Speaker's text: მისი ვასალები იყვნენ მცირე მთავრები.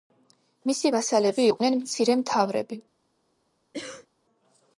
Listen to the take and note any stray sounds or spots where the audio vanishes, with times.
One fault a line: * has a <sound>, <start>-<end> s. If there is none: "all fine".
* has a cough, 3.7-4.1 s